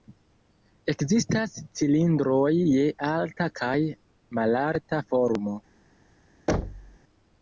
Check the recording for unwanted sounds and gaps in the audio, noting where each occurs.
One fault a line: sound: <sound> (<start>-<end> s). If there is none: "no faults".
sound: thud (6.5-7.0 s)